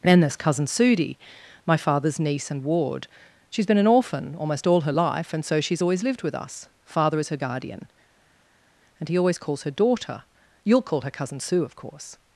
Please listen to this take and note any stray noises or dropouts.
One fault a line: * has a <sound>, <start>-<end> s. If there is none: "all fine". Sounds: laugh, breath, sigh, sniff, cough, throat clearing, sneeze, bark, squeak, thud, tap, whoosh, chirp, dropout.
all fine